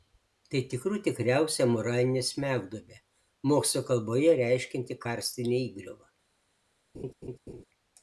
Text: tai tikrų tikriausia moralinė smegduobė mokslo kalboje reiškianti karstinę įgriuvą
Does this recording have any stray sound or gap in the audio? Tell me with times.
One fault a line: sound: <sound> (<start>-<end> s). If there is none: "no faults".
sound: laugh (6.9-7.6 s)